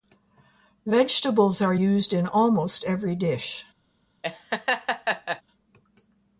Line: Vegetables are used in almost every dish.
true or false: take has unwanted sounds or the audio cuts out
true